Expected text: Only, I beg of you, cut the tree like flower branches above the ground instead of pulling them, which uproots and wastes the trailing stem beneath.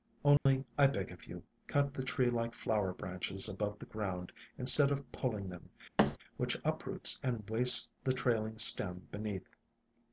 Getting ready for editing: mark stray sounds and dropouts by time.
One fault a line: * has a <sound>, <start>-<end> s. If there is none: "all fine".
* has a dropout, 0.4-0.5 s
* has a thud, 6.0-6.2 s